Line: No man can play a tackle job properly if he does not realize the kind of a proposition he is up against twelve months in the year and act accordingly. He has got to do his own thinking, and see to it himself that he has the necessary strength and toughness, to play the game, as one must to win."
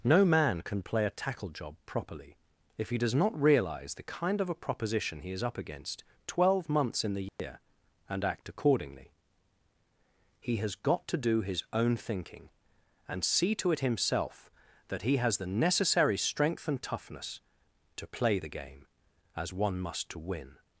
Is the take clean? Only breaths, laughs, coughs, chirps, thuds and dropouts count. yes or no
no